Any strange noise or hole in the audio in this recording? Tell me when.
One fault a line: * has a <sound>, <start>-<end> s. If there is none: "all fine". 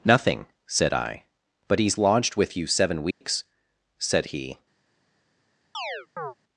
* has a dropout, 3.1-3.2 s
* has a chirp, 5.7-6.3 s